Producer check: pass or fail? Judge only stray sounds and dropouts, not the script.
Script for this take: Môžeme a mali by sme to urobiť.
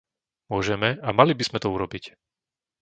pass